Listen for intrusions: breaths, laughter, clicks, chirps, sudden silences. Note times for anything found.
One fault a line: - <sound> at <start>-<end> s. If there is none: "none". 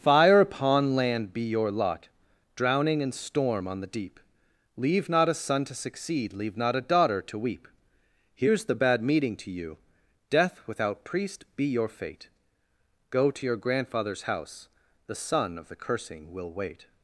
none